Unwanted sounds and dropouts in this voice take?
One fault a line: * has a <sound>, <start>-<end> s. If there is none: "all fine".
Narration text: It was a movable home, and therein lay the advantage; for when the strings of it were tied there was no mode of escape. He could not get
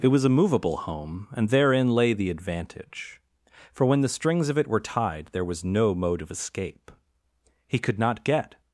all fine